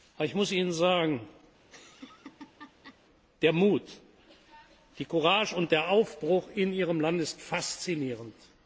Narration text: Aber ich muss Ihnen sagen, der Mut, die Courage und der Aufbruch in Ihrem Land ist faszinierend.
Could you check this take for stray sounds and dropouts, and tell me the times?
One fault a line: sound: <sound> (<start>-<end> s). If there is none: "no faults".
sound: laugh (1.6-3.0 s)